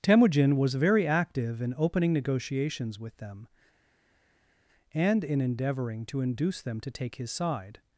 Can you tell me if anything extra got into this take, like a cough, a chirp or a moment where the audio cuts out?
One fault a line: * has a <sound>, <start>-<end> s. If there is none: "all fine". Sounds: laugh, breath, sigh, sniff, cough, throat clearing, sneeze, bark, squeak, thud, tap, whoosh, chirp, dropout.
all fine